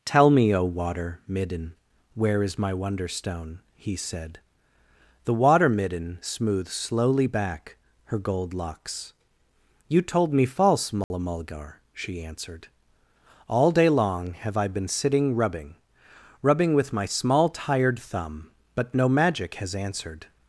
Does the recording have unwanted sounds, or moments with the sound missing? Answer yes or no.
yes